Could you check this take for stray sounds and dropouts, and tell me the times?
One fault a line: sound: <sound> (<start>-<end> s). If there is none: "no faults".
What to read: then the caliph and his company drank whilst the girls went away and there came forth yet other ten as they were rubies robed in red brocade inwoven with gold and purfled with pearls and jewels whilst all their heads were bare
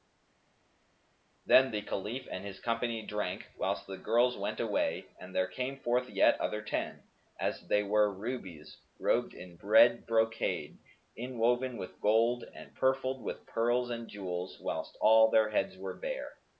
no faults